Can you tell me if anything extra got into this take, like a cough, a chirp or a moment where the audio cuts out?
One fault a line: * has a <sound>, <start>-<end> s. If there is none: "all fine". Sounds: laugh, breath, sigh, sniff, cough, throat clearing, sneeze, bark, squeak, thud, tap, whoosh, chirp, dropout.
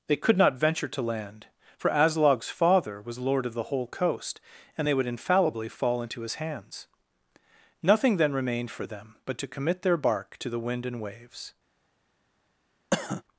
* has a cough, 12.9-13.2 s